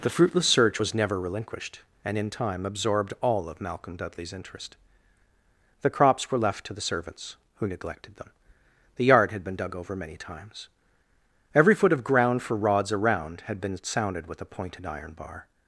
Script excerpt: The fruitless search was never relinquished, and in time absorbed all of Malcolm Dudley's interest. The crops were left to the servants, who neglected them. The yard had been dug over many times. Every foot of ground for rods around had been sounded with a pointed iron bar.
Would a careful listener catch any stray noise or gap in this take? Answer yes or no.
no